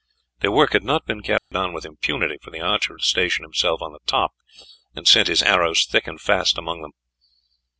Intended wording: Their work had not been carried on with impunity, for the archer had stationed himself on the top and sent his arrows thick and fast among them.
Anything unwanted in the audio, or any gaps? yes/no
yes